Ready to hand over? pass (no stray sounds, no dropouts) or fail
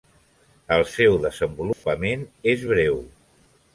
fail